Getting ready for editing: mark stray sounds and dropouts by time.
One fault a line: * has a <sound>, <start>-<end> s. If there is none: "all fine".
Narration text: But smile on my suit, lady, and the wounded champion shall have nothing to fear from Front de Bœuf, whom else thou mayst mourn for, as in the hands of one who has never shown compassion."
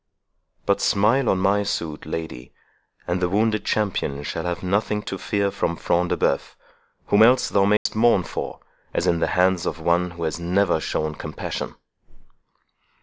* has a dropout, 7.8-7.9 s